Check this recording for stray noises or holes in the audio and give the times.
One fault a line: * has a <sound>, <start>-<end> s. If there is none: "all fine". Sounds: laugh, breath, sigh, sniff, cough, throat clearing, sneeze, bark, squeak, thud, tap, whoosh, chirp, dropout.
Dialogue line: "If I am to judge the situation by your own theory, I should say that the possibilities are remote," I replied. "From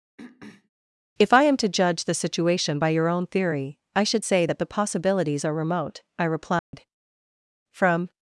* has a throat clearing, 0.2-0.7 s
* has a dropout, 6.6-6.7 s